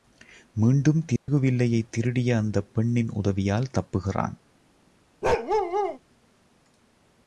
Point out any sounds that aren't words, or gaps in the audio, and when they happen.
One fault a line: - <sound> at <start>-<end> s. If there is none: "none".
- dropout at 1.2-1.3 s
- bark at 5.2-6.0 s